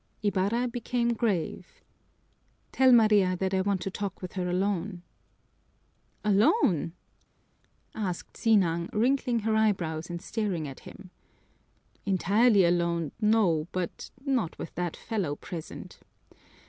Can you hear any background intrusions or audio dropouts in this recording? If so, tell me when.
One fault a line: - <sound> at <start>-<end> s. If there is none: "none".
none